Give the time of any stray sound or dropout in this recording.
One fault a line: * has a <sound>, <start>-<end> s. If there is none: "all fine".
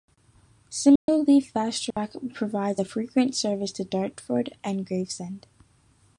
* has a dropout, 1.0-1.1 s
* has a dropout, 1.9-2.0 s